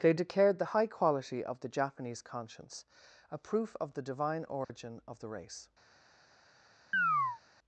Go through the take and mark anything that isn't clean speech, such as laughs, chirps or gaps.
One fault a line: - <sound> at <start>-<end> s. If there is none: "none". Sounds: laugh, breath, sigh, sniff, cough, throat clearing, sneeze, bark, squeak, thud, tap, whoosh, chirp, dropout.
- dropout at 4.6-4.7 s
- chirp at 6.9-7.4 s